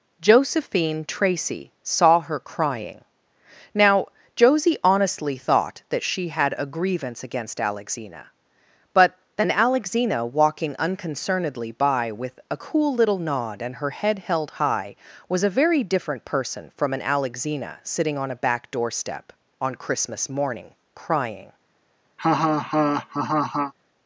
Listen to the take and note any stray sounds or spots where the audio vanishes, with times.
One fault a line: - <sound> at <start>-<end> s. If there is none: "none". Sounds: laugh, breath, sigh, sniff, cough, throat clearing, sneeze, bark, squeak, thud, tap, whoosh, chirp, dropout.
- laugh at 22.2-23.7 s